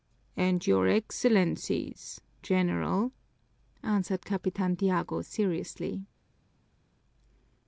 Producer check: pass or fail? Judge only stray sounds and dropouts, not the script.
pass